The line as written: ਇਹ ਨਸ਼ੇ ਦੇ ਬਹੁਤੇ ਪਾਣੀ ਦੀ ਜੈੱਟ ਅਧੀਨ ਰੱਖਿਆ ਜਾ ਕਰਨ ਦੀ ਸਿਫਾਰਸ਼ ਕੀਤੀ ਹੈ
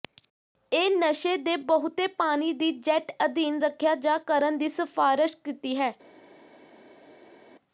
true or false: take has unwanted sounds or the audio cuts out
false